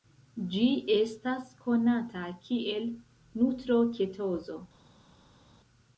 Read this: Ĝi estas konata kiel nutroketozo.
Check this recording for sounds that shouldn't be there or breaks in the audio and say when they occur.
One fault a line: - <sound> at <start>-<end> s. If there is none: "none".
none